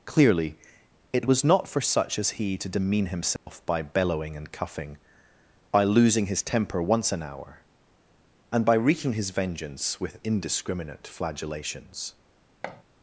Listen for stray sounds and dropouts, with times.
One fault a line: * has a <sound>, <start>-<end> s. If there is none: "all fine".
* has a dropout, 3.4-3.5 s
* has a thud, 12.6-12.8 s